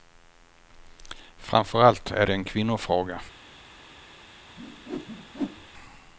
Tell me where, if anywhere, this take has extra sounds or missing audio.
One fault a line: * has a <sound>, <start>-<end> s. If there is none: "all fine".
* has a whoosh, 4.6-5.7 s